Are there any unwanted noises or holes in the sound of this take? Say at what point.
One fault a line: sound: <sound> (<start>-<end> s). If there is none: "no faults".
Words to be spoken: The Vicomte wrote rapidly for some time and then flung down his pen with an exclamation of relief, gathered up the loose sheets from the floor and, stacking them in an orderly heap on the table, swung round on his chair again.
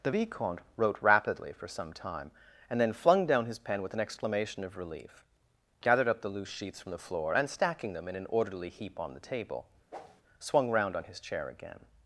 sound: whoosh (9.9-10.2 s)